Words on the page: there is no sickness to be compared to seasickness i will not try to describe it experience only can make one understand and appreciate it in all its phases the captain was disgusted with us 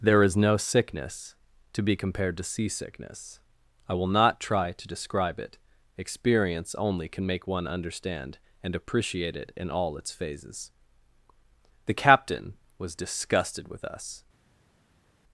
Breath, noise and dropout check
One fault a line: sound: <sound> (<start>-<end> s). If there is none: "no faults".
no faults